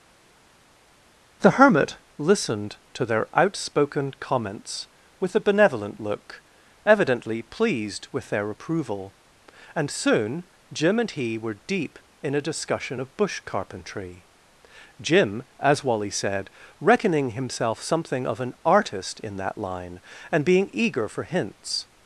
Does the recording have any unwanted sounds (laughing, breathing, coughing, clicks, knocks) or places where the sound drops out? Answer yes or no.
no